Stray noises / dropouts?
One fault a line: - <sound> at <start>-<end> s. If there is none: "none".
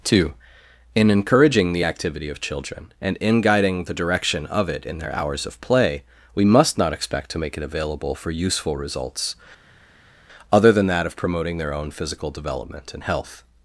none